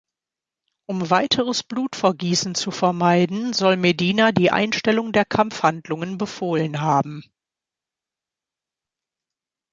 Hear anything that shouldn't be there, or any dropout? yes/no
no